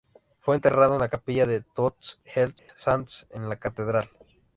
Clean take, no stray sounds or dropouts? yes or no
no